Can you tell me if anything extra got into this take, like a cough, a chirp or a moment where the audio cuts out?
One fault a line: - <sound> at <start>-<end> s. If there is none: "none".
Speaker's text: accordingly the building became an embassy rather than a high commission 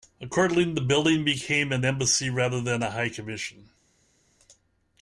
none